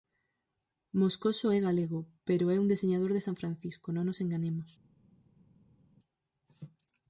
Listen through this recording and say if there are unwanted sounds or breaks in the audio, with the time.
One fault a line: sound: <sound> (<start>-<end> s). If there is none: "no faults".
no faults